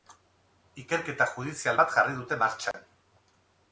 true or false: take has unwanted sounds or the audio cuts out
true